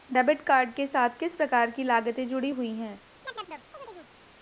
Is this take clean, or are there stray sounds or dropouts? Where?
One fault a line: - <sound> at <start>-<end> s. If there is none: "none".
- chirp at 3.2-4.1 s